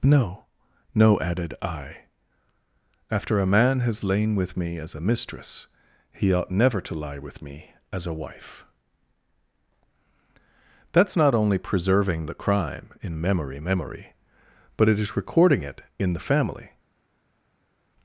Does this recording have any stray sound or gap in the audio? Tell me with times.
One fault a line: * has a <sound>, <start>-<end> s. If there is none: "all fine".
all fine